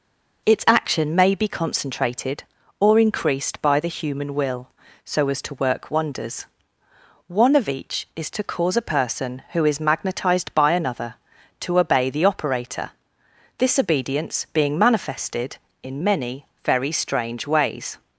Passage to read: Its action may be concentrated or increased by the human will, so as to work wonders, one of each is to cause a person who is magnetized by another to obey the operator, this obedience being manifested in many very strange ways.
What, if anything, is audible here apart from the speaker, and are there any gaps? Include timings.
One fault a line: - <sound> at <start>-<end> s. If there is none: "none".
none